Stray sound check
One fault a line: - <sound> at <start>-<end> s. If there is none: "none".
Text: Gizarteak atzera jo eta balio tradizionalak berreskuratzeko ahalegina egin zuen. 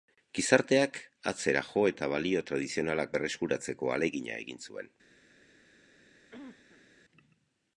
- cough at 6.3-6.9 s